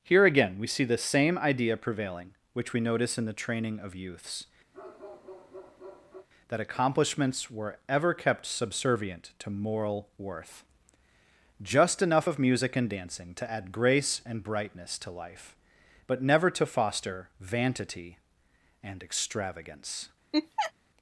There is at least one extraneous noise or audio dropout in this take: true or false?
true